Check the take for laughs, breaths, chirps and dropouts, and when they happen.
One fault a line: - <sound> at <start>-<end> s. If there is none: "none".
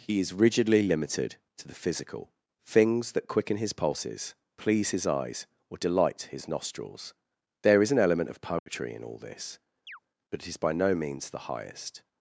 - dropout at 8.6-8.7 s
- chirp at 9.9-10.0 s